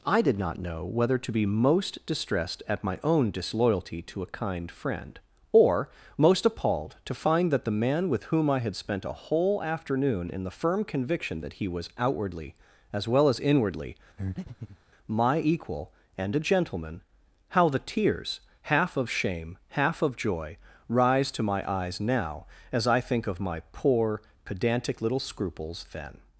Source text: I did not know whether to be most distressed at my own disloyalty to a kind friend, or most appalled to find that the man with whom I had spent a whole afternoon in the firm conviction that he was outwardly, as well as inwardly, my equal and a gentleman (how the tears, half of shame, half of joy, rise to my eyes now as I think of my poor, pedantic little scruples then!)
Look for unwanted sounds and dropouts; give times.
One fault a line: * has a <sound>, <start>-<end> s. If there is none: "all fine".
* has a breath, 14.2-14.8 s